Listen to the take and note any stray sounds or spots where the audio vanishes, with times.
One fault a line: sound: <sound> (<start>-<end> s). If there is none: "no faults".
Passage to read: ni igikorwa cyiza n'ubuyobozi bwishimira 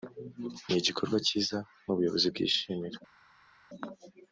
no faults